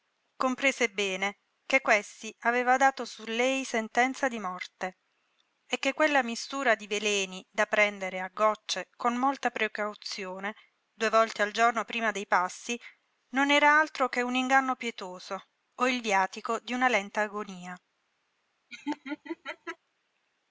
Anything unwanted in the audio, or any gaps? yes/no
yes